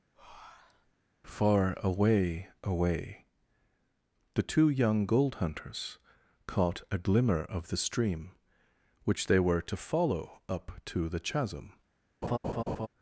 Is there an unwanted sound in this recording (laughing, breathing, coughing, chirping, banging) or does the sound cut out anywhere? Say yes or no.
yes